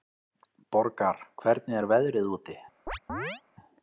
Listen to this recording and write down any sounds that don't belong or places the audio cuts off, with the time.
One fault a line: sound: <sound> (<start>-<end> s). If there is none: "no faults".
sound: chirp (2.9-3.4 s)